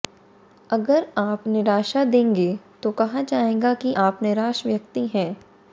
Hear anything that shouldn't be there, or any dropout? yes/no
no